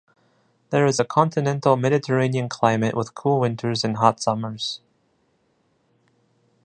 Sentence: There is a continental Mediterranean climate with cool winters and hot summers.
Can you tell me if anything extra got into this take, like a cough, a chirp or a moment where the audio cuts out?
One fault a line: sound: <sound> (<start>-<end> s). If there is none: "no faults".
no faults